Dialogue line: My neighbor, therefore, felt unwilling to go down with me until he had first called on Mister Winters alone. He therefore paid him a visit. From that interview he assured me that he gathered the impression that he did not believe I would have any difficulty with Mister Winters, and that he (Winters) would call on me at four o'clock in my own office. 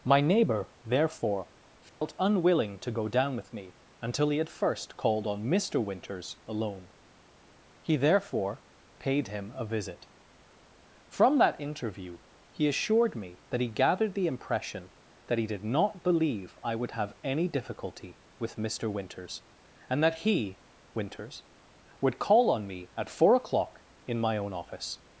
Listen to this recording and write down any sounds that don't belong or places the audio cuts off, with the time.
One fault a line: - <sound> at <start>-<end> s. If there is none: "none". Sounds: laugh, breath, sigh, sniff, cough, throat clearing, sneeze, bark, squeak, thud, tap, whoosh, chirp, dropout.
- dropout at 1.9-2.0 s